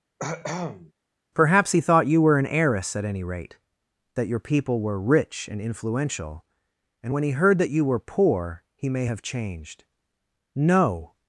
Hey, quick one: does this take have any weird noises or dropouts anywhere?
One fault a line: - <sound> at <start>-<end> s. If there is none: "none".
- cough at 0.2-0.9 s